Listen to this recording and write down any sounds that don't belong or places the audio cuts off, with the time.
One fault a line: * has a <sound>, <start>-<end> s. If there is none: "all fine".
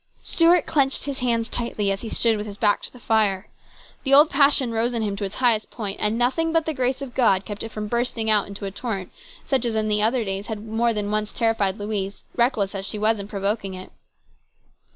all fine